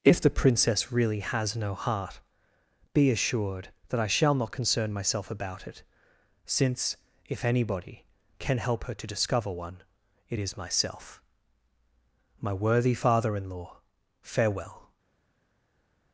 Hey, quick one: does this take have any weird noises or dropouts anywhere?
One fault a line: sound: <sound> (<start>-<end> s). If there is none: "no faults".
no faults